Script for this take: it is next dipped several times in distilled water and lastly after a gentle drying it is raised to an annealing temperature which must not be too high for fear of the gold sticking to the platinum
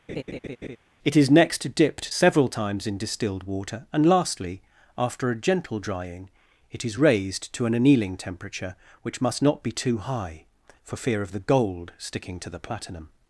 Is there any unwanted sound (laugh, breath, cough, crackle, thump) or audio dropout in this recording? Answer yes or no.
yes